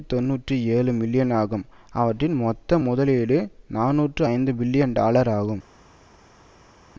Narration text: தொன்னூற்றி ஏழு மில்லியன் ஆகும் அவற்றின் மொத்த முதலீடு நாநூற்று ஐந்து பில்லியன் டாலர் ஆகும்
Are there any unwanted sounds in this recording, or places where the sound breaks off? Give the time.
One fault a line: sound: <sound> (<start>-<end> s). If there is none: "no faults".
no faults